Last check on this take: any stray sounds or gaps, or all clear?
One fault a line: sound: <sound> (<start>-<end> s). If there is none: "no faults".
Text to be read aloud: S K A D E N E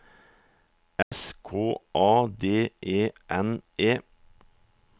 sound: dropout (1.0-1.1 s)